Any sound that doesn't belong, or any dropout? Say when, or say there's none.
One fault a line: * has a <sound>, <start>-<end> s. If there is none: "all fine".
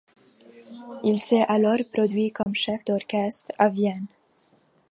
* has a dropout, 2.4-2.5 s